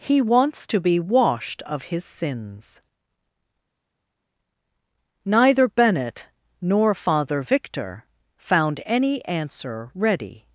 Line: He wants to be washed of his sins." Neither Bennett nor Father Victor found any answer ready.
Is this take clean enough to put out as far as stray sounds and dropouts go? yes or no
yes